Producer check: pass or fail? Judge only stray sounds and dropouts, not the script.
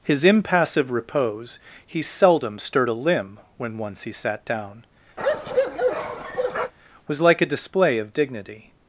fail